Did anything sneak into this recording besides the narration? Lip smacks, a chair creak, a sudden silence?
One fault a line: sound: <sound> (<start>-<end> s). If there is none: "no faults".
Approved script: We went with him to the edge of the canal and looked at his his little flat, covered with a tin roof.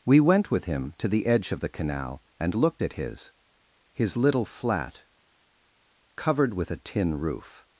no faults